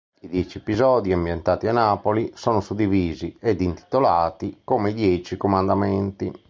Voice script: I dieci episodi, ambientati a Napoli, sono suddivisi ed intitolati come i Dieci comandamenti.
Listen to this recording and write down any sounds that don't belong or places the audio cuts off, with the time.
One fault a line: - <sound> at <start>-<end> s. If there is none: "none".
none